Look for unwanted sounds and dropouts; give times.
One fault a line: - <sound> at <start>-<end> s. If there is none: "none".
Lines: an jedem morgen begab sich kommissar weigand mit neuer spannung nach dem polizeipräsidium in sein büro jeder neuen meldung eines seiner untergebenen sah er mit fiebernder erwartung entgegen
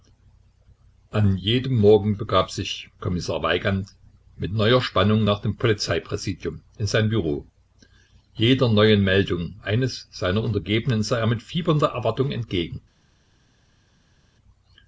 none